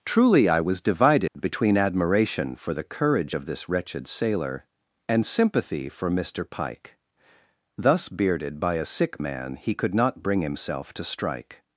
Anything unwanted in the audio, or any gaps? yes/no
yes